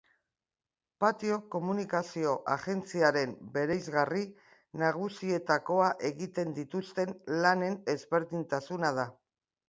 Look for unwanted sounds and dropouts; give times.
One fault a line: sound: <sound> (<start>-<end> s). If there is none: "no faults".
no faults